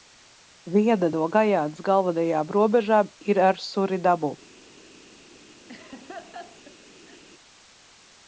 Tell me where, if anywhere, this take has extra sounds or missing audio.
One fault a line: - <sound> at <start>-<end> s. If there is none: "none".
- laugh at 5.7-7.2 s